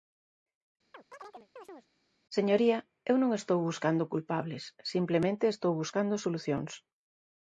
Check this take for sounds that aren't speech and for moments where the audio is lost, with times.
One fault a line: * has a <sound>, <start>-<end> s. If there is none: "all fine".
* has a chirp, 0.9-1.9 s